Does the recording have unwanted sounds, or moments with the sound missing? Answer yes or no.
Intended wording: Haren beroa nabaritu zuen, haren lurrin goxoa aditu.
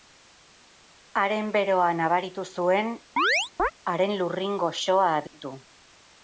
yes